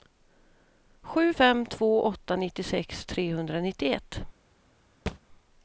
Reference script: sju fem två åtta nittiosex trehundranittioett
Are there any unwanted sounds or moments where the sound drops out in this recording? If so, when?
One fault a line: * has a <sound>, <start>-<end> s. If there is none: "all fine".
* has a thud, 5.1-5.2 s